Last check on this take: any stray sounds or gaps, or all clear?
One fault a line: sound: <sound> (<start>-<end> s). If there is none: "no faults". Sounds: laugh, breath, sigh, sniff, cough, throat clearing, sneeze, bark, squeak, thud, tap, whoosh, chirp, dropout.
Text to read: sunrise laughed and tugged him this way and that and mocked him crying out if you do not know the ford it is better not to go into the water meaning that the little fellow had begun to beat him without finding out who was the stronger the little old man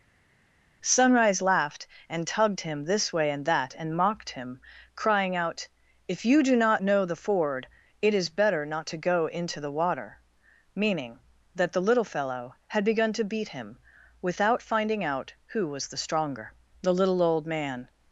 no faults